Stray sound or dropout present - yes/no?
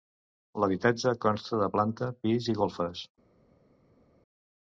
no